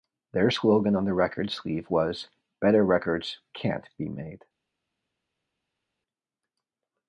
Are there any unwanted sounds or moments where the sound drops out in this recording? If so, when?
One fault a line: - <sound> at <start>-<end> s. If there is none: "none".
none